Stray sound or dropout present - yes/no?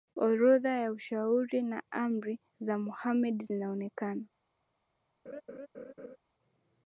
yes